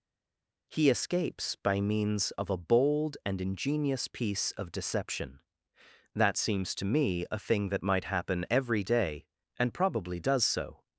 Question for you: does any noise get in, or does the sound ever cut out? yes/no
no